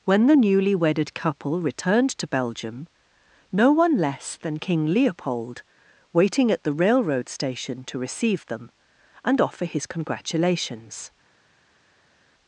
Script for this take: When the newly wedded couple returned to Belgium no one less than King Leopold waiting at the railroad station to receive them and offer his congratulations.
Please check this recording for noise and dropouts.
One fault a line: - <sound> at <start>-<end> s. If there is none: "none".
none